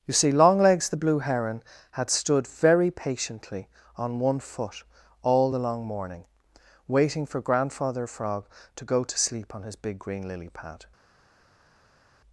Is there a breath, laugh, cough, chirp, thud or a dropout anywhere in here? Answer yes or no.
no